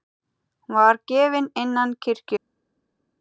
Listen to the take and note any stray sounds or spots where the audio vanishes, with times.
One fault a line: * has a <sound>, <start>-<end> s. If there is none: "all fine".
all fine